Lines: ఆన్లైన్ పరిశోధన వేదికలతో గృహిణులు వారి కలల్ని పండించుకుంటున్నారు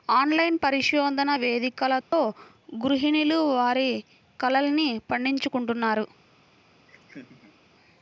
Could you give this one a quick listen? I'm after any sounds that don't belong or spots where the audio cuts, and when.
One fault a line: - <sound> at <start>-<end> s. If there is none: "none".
- dropout at 2.0-2.1 s
- laugh at 6.9-7.6 s